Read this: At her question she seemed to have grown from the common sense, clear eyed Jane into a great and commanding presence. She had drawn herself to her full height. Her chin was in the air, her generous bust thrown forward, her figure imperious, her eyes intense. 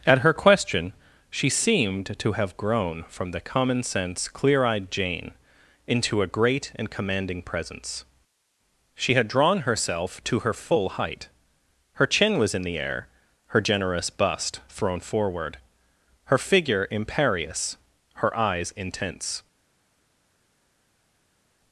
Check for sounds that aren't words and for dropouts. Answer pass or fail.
pass